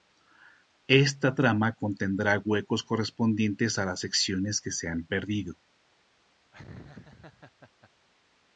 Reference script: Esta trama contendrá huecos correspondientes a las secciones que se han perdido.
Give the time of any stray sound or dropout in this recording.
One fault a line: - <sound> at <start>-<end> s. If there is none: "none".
- laugh at 6.5-7.9 s